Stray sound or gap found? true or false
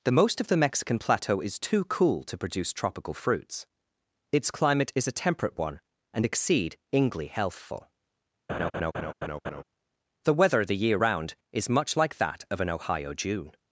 true